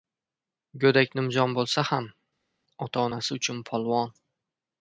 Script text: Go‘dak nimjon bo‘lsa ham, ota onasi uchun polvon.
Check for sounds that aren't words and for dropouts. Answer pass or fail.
pass